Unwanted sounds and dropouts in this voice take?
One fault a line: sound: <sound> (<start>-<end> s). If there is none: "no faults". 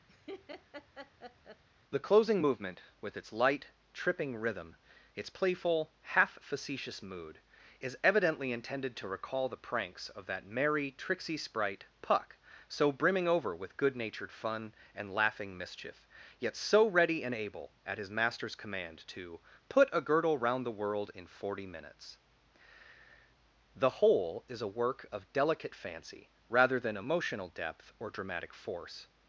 sound: laugh (0.1-1.6 s)